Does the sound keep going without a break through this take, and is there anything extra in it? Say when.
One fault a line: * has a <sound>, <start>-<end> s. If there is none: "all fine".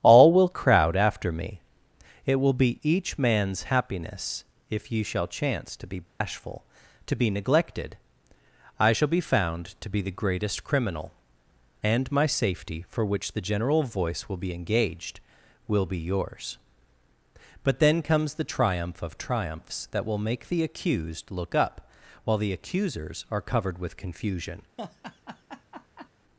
* has a dropout, 6.1-6.2 s
* has a laugh, 24.8-26.1 s